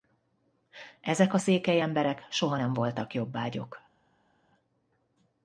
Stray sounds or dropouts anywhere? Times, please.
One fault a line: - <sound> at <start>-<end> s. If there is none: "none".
none